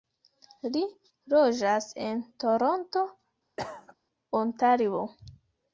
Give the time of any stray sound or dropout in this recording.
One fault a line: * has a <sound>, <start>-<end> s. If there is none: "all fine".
* has a cough, 3.6-3.9 s